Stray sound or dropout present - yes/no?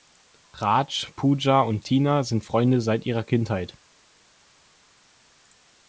no